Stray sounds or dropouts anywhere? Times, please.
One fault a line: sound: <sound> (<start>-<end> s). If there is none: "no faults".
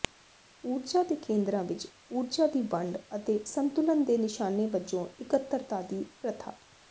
no faults